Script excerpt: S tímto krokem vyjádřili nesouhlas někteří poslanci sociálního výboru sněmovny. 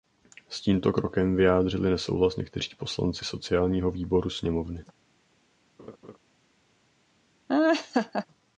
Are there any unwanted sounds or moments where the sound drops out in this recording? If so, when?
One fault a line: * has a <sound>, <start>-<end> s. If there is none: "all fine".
* has a laugh, 5.8-6.2 s
* has a laugh, 7.5-8.3 s